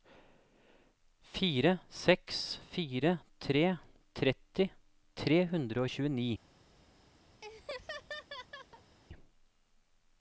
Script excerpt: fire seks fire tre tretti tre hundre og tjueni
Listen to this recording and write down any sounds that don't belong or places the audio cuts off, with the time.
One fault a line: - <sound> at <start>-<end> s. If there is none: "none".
- laugh at 7.4-9.0 s